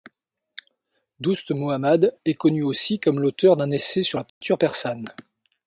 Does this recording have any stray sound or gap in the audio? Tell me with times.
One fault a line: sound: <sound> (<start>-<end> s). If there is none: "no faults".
sound: dropout (4.3-4.4 s)